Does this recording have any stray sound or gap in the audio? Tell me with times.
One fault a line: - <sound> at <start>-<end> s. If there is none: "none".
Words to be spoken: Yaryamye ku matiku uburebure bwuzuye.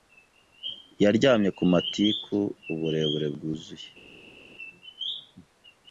none